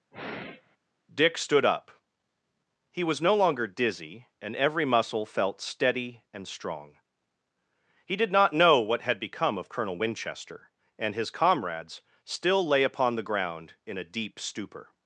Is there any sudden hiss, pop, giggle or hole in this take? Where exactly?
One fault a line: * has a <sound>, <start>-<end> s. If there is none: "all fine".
* has a sigh, 0.1-0.8 s